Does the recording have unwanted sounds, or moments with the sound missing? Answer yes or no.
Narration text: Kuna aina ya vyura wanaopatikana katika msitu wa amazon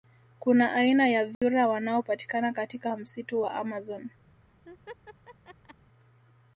yes